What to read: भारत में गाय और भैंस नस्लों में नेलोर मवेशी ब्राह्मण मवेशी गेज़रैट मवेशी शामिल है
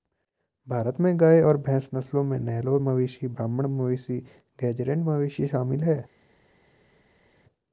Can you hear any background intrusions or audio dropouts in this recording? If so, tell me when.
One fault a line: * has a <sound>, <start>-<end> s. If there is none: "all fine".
all fine